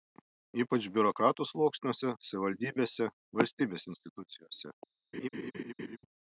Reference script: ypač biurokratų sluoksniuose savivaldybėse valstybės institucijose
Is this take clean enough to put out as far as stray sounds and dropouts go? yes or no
no